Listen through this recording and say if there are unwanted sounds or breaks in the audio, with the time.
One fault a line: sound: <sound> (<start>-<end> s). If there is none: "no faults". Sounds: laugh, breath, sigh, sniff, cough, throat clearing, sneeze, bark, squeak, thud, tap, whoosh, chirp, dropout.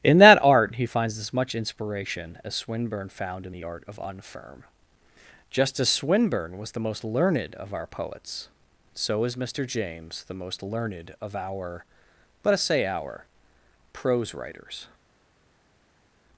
no faults